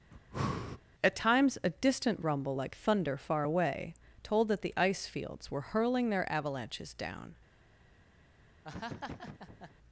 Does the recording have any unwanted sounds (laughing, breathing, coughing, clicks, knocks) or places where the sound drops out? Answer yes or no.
yes